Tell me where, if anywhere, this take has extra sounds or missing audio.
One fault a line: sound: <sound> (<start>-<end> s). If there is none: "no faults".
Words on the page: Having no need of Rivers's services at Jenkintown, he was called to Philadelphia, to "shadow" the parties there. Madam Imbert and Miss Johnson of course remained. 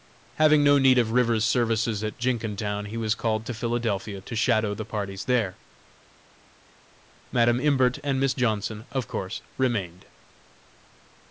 no faults